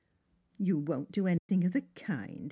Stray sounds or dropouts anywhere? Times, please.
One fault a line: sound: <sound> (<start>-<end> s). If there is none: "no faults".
sound: dropout (1.4-1.5 s)